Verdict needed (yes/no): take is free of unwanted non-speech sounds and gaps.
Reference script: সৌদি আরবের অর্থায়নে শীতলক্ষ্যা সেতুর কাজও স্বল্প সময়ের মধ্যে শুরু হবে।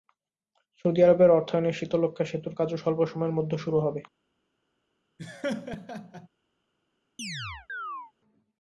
no